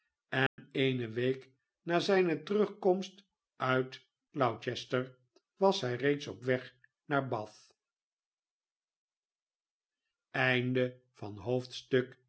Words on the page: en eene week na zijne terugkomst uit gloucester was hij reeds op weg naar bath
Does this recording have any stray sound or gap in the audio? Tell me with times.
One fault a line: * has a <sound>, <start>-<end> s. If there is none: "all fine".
* has a dropout, 0.5-0.6 s